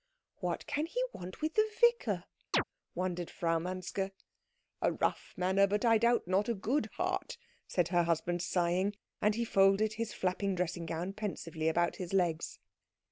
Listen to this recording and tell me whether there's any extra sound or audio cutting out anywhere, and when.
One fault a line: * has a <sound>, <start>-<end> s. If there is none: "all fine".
* has a chirp, 2.5-2.6 s